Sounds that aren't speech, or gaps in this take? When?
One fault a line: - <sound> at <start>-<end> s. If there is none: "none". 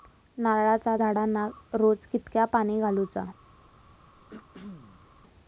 - throat clearing at 4.3-5.1 s